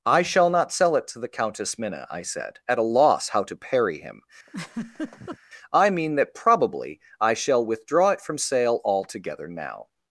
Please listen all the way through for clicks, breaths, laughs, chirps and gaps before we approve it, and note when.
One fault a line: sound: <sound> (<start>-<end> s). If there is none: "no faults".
sound: laugh (4.5-5.4 s)